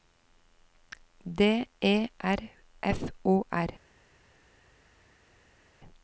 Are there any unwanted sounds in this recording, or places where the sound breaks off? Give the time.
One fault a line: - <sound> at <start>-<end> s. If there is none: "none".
none